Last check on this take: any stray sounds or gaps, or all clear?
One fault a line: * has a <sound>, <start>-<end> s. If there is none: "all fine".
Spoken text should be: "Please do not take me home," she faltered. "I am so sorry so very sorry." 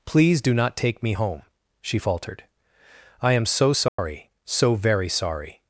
* has a dropout, 3.9-4.0 s